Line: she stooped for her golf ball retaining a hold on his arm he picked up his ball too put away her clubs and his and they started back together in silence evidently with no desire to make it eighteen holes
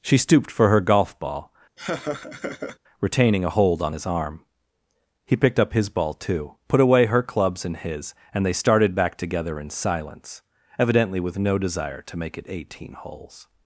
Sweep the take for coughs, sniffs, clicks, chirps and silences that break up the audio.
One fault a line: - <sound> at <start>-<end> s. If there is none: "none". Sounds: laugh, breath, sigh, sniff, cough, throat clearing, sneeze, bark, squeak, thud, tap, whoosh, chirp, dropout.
- laugh at 1.8-2.8 s